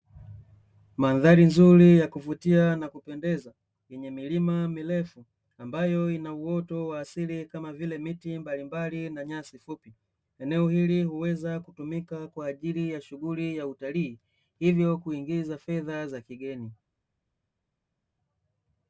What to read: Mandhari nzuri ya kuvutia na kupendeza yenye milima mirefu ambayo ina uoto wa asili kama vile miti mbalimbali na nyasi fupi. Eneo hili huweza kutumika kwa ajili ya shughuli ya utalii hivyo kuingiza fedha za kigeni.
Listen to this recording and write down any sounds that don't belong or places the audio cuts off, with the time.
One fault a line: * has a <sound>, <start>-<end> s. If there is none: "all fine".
all fine